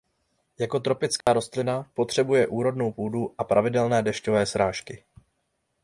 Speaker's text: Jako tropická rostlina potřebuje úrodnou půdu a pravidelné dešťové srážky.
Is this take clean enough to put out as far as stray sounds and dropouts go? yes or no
no